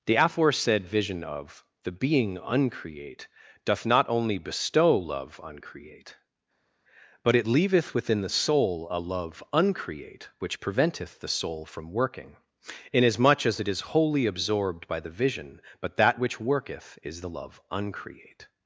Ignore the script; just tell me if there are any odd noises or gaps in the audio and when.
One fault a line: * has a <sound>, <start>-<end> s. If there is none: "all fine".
all fine